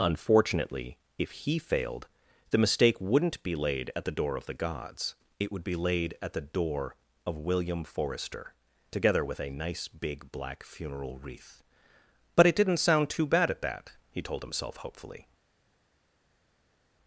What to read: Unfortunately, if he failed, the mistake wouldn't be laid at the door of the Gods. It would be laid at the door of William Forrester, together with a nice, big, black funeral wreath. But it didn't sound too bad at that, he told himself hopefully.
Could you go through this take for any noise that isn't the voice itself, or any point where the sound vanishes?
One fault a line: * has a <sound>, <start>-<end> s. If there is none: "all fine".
all fine